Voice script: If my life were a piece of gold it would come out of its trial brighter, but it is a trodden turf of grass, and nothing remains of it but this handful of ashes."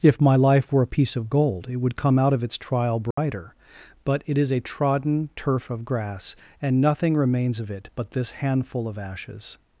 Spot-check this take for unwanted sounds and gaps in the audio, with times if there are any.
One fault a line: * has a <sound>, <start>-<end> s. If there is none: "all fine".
* has a dropout, 3.1-3.2 s